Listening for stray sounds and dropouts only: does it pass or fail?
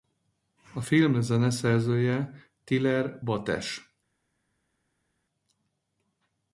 pass